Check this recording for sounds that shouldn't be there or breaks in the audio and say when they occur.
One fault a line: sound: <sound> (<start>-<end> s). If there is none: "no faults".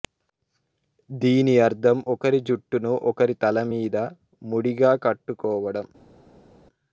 no faults